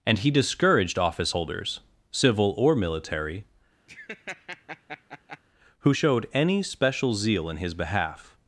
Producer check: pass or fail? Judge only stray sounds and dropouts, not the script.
fail